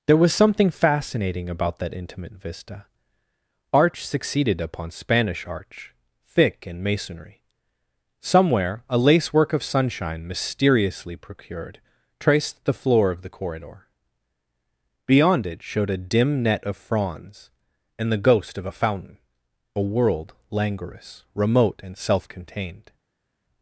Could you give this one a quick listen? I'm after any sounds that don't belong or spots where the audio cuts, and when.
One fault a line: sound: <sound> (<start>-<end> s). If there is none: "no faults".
no faults